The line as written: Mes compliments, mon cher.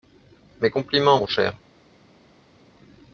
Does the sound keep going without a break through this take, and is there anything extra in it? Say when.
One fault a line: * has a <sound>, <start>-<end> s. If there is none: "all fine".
all fine